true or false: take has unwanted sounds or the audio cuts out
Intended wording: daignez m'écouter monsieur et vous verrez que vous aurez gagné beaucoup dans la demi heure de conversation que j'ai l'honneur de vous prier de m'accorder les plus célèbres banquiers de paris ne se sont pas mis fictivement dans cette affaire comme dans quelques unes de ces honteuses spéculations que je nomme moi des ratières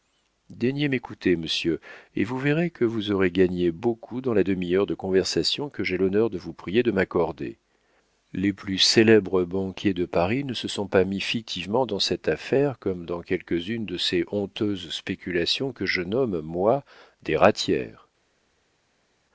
false